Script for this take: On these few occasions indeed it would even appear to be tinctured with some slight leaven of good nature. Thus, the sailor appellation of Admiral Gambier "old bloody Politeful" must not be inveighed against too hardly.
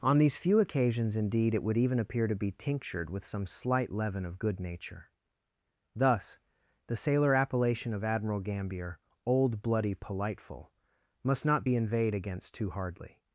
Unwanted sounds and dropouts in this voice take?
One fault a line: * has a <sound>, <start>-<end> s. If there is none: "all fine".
all fine